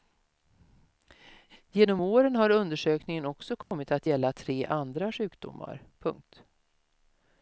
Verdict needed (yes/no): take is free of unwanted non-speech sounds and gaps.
no